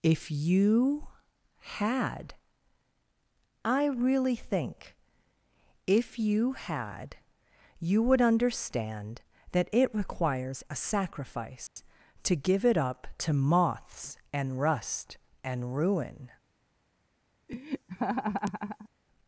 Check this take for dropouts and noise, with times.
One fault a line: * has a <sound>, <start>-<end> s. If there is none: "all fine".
* has a dropout, 11.7-11.8 s
* has a laugh, 17.5-18.9 s